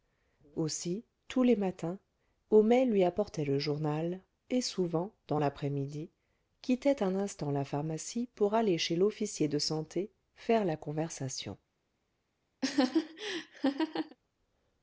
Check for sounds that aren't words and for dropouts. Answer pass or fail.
fail